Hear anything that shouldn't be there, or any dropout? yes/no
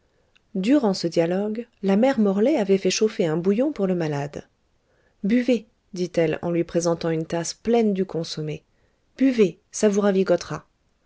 no